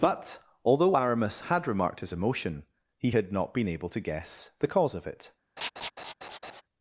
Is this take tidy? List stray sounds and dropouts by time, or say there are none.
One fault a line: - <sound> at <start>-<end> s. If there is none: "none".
- laugh at 5.6-6.6 s